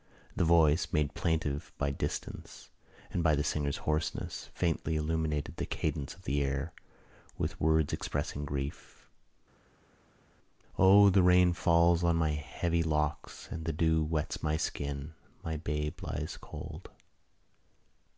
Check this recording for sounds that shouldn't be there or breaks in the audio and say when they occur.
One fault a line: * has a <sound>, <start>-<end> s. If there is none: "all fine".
all fine